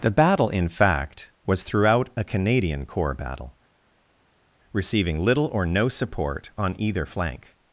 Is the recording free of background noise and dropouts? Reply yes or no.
yes